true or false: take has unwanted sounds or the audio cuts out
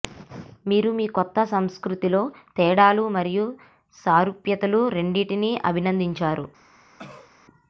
true